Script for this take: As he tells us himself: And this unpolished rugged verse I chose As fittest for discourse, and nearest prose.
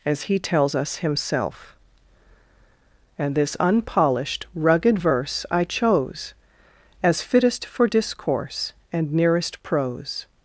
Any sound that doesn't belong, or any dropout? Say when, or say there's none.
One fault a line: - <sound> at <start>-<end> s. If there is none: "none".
none